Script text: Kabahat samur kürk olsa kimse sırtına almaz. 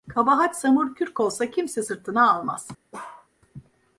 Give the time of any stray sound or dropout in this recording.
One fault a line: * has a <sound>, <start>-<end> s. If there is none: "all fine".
* has a bark, 2.9-3.3 s